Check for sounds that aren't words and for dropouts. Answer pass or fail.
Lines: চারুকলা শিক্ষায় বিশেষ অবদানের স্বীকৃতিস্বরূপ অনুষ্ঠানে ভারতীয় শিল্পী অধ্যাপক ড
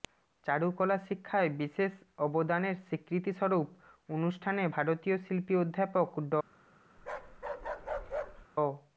fail